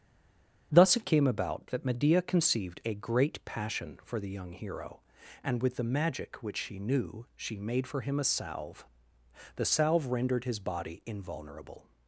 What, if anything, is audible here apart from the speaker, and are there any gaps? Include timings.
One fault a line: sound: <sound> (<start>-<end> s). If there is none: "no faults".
no faults